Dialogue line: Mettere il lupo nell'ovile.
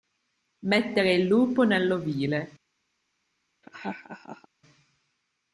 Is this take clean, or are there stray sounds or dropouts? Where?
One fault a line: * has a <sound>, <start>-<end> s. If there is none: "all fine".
* has a laugh, 3.6-4.5 s